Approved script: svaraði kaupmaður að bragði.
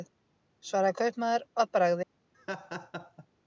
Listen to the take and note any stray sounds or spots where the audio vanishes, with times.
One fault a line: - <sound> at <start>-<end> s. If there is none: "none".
- laugh at 2.3-3.3 s